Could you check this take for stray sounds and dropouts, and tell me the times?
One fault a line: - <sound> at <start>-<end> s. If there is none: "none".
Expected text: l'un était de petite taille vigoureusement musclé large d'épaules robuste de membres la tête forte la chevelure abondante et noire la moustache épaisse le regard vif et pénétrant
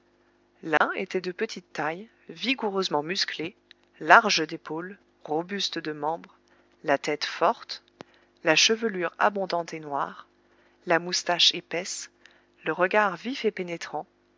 - dropout at 0.8-0.8 s